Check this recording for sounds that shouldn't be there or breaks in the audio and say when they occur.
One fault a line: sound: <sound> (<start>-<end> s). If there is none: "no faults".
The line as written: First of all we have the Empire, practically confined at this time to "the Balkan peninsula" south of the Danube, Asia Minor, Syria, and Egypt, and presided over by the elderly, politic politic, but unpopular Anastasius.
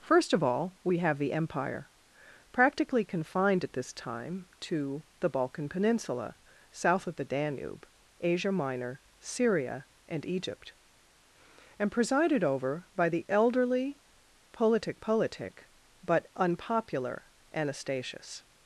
no faults